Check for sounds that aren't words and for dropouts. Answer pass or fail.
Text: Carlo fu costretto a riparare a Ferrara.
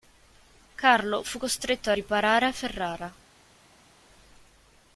pass